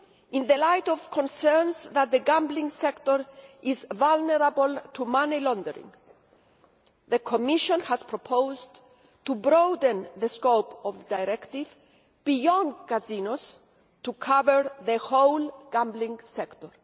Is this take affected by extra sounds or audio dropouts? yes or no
no